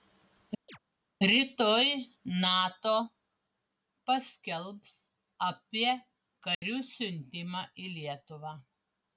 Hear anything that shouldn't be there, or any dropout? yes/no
yes